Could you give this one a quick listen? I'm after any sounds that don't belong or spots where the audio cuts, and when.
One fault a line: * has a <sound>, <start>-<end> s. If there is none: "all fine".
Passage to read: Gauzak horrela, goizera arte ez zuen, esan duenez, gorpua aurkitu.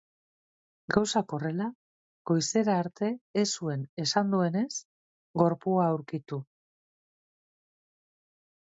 all fine